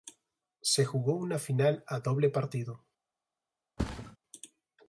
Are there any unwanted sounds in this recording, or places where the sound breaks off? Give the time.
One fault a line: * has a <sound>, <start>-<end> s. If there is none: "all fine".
* has a thud, 3.8-4.2 s